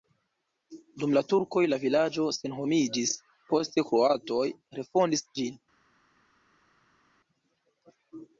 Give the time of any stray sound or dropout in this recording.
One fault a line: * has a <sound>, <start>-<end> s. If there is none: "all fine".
all fine